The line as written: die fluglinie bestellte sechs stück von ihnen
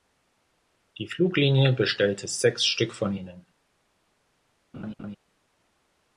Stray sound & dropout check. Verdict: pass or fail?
fail